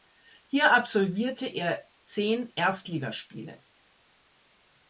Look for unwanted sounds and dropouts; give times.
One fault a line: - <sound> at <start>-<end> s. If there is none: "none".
none